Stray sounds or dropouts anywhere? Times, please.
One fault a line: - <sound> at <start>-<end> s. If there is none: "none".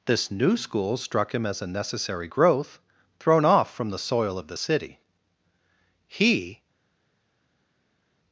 none